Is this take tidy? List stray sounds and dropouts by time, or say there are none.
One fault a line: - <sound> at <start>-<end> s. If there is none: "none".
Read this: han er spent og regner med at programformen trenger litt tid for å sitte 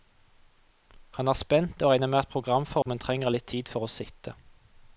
- dropout at 2.8-2.9 s